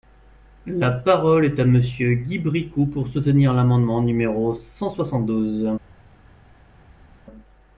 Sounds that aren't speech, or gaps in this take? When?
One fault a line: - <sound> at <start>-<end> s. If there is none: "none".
none